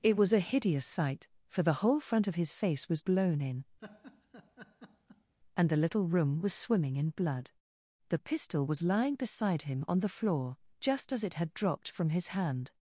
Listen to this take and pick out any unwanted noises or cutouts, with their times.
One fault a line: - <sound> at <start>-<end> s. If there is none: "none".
- laugh at 3.8-5.3 s